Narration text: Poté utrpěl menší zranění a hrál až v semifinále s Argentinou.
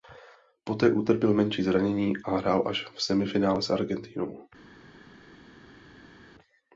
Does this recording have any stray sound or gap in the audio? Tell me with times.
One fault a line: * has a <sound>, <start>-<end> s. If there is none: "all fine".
all fine